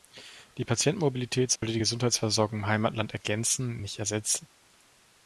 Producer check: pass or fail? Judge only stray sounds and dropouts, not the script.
fail